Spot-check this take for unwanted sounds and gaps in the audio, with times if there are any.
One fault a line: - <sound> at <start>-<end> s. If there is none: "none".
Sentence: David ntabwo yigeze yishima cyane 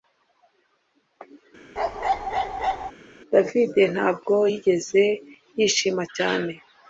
- bark at 1.8-2.9 s